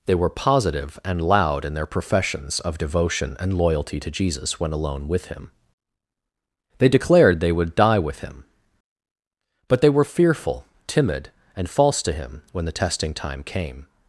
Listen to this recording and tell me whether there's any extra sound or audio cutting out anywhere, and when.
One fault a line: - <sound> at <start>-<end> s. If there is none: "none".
none